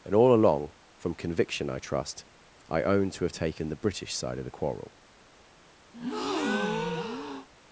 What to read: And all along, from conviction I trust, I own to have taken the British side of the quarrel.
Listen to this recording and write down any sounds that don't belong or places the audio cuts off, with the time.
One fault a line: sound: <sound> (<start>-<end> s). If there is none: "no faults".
sound: breath (5.9-7.5 s)